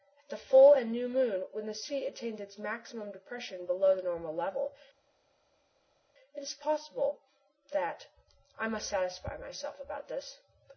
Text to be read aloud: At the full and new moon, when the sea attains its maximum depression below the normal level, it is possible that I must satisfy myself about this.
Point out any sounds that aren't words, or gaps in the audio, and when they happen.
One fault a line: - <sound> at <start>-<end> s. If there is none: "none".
none